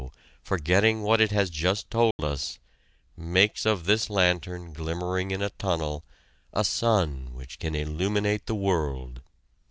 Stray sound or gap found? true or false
true